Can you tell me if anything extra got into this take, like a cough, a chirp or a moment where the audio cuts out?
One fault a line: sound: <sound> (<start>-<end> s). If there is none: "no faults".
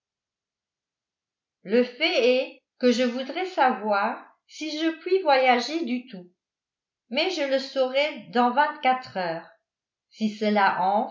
no faults